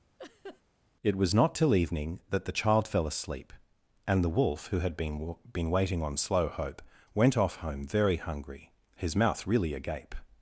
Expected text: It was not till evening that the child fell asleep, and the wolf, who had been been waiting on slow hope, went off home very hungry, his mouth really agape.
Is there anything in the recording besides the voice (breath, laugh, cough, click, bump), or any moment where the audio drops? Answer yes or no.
yes